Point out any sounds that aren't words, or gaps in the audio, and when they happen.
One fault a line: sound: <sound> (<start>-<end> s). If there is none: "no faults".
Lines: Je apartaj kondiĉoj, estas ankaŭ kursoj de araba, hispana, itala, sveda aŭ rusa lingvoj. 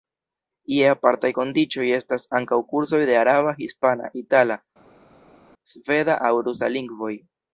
no faults